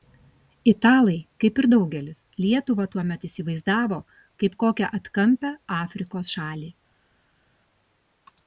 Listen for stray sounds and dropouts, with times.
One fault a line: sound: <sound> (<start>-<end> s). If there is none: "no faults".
no faults